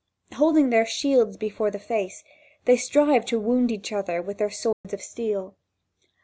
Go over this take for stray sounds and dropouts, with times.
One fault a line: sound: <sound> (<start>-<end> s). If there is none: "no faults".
sound: dropout (4.7-4.8 s)